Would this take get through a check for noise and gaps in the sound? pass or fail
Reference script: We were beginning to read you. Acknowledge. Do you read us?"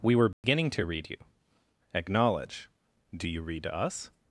fail